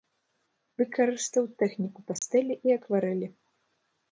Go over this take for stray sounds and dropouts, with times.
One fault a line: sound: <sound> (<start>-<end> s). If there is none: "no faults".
sound: dropout (2.2-2.2 s)